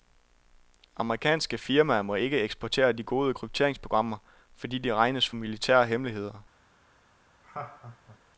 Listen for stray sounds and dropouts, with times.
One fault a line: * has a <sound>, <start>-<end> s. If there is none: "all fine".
* has a laugh, 7.4-8.2 s